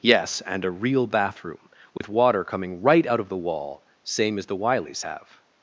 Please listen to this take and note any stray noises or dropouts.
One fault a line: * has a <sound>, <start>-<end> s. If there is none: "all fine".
* has a dropout, 2.0-2.0 s